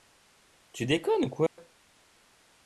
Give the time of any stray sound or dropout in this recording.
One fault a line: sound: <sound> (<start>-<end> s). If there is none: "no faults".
sound: dropout (1.5-1.6 s)